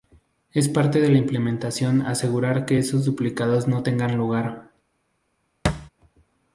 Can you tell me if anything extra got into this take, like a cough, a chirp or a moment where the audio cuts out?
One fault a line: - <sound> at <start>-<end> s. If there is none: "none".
- thud at 5.6-5.9 s